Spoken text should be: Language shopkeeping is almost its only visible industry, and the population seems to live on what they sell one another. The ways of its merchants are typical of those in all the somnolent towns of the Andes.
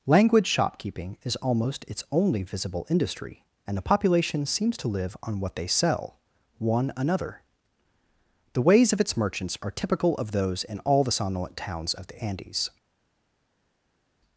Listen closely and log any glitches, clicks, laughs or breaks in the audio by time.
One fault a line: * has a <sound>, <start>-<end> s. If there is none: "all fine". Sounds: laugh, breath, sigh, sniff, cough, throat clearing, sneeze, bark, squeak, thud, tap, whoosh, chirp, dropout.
all fine